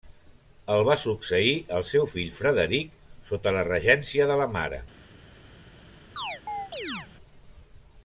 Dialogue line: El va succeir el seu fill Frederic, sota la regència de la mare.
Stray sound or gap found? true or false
true